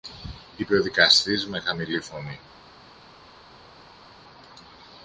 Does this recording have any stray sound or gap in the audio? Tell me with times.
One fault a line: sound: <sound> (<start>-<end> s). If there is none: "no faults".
no faults